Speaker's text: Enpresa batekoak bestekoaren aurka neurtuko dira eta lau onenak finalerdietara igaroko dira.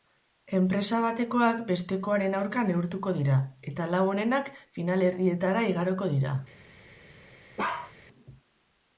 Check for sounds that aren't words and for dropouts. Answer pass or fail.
fail